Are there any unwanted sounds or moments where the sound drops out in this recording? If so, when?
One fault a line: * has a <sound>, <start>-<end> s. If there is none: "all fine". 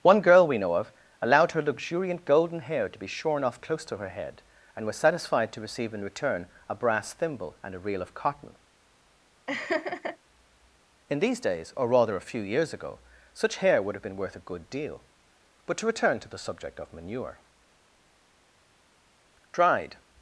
* has a laugh, 9.5-10.2 s